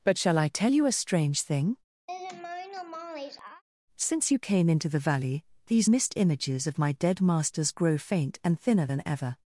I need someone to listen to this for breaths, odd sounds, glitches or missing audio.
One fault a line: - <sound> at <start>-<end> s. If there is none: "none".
- laugh at 2.1-3.6 s